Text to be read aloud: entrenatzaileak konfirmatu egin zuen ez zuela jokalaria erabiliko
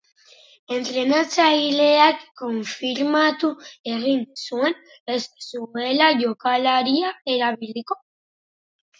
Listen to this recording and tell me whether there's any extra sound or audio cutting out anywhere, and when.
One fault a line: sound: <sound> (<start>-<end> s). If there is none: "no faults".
no faults